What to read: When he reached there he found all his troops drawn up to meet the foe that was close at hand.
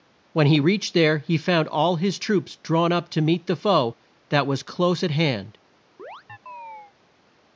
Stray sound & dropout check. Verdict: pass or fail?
fail